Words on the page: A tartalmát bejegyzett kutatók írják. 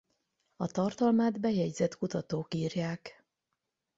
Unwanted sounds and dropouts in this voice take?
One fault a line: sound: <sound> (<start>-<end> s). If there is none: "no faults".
no faults